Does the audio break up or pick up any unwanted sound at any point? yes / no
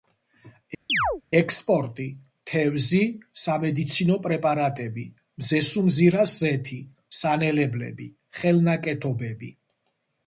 yes